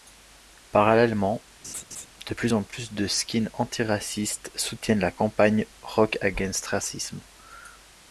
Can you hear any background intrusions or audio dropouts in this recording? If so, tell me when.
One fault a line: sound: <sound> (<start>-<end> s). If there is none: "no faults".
sound: laugh (1.6-2.1 s)